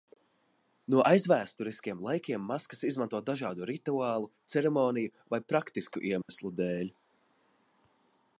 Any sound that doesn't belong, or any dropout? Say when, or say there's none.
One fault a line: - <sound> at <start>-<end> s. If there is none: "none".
- dropout at 6.2-6.3 s